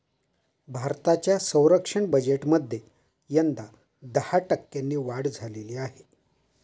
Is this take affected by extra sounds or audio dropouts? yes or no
no